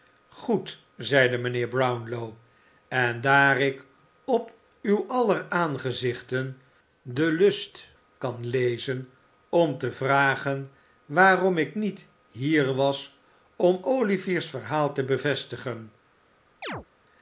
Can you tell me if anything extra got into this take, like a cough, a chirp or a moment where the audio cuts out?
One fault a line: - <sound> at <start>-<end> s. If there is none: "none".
- chirp at 16.6-16.9 s